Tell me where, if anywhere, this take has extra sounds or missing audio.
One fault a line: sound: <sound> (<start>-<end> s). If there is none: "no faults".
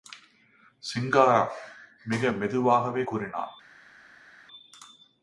no faults